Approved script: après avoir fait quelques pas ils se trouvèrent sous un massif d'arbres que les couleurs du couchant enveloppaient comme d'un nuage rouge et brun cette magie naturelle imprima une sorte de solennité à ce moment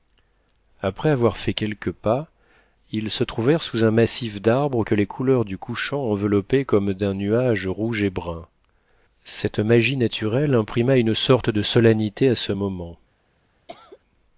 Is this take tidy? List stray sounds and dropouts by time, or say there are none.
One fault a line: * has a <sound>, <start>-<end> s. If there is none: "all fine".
* has a cough, 13.7-14.0 s